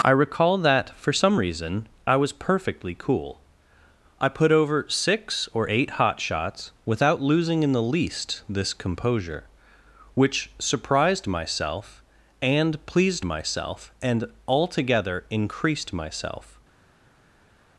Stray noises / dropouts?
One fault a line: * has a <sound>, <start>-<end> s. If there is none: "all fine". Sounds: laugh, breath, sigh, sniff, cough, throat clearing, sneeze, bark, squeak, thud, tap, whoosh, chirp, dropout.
all fine